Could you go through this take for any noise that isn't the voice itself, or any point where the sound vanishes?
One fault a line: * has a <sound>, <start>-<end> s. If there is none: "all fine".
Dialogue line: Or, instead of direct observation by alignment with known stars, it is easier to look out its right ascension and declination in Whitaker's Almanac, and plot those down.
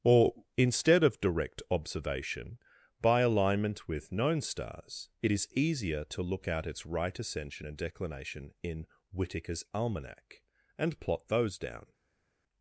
all fine